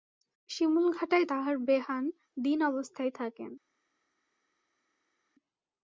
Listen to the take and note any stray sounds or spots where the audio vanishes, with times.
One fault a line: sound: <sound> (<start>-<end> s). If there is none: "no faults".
no faults